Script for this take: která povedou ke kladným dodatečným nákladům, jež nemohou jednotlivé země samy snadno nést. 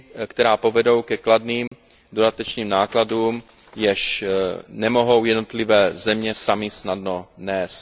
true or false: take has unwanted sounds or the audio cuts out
true